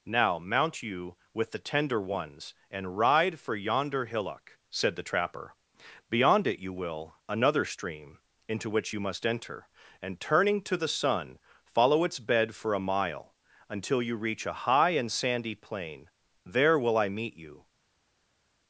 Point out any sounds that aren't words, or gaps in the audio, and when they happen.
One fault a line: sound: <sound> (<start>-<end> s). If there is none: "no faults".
no faults